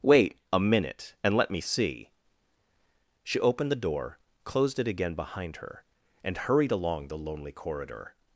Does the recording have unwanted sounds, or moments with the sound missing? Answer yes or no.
no